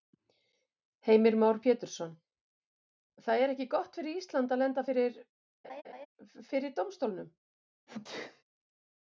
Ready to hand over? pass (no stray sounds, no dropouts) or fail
fail